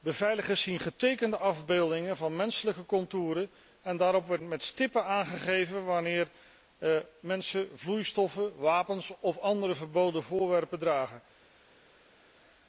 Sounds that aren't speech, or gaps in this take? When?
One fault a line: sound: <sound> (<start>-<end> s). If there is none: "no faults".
no faults